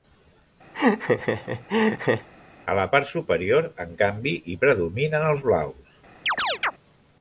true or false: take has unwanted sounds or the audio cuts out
true